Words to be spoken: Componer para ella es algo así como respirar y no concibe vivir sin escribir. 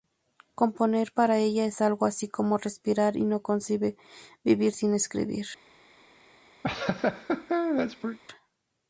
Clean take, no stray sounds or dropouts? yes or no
no